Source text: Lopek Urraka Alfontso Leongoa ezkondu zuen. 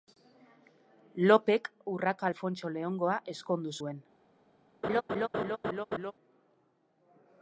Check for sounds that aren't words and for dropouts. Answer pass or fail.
fail